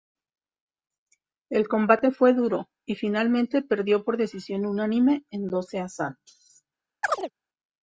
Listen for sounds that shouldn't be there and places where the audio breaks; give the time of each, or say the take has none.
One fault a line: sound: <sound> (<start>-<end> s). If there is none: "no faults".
sound: chirp (7.0-7.3 s)